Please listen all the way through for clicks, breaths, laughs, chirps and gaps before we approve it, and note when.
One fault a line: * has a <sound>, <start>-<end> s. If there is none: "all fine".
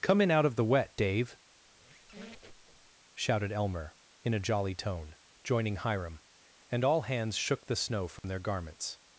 * has a squeak, 1.7-2.9 s
* has a dropout, 8.2-8.2 s